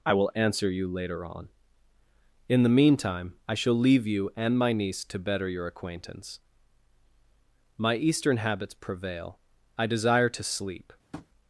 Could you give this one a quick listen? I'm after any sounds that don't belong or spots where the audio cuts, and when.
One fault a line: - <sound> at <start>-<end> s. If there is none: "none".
- tap at 11.1-11.3 s